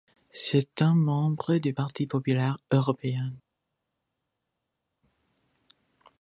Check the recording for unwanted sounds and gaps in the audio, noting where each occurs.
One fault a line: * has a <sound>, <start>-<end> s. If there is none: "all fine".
all fine